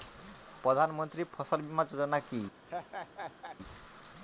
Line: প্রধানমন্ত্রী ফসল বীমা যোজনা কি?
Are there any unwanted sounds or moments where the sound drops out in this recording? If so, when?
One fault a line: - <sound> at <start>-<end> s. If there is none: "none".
- laugh at 2.6-3.6 s